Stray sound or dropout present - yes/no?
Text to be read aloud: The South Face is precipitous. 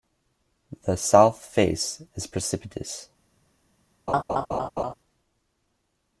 yes